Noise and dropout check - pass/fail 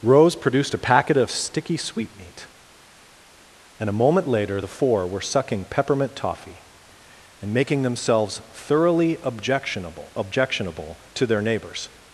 pass